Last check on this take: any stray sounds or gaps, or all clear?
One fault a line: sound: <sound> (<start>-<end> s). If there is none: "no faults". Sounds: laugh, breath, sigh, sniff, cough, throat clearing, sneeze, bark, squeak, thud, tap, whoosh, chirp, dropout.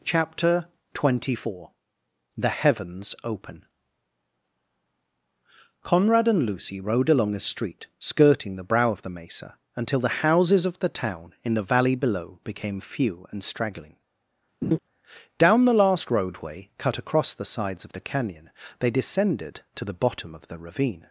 sound: laugh (14.6-14.8 s)